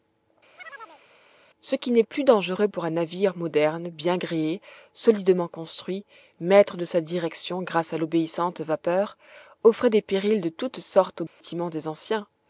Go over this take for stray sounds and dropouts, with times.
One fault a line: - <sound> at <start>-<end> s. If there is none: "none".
- chirp at 0.6-1.0 s
- dropout at 11.3-11.4 s